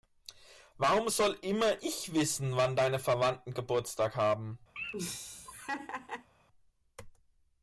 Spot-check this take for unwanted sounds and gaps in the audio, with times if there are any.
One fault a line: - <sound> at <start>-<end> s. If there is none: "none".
- laugh at 4.8-6.3 s